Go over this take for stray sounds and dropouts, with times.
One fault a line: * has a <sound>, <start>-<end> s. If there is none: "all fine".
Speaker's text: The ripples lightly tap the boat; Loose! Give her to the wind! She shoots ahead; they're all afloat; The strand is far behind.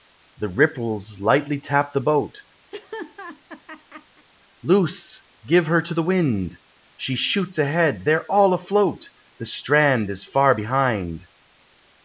* has a laugh, 2.7-4.3 s